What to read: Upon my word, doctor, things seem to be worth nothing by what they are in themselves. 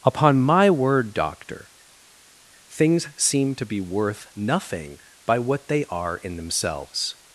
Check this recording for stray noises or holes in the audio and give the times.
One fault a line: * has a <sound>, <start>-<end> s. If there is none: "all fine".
all fine